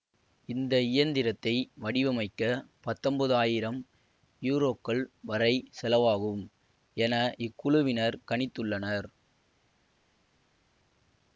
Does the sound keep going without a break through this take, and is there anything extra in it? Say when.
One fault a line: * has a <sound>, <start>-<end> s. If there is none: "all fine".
all fine